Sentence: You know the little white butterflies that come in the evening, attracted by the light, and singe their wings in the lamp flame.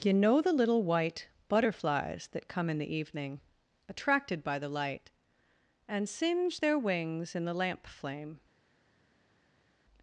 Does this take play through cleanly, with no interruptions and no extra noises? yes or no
yes